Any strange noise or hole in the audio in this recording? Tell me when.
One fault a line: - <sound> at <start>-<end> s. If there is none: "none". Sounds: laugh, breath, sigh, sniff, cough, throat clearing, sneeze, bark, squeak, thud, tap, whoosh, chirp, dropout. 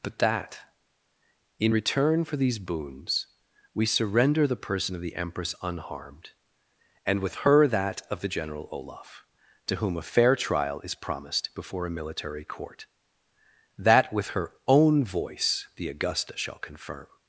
none